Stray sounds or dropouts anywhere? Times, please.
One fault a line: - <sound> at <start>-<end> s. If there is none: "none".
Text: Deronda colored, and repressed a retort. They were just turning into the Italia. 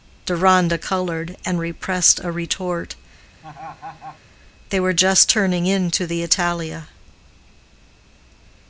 - laugh at 3.4-4.2 s